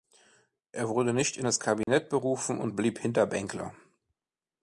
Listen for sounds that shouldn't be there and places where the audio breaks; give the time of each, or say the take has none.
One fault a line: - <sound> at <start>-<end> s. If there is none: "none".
- dropout at 1.8-1.9 s